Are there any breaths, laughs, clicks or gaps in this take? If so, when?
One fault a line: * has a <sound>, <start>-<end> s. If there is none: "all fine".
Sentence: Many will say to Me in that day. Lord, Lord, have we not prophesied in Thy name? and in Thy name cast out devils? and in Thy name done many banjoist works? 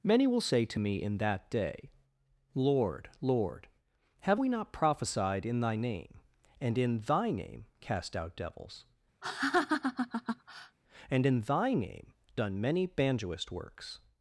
* has a laugh, 9.2-10.8 s